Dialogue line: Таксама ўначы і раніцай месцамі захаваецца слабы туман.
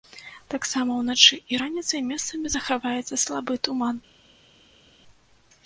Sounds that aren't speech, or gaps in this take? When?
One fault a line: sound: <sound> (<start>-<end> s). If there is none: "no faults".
no faults